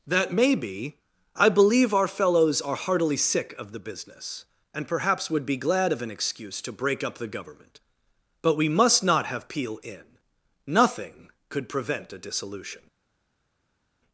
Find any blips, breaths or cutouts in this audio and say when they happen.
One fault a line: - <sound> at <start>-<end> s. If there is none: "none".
none